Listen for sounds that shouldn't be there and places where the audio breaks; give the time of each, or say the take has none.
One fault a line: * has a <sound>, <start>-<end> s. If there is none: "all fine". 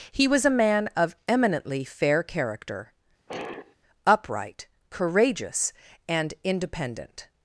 * has a sigh, 3.3-3.8 s